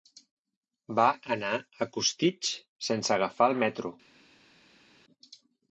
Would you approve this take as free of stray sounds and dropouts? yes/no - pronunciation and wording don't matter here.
yes